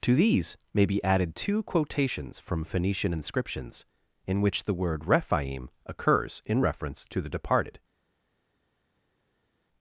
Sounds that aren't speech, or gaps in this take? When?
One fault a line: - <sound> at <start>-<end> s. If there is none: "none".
none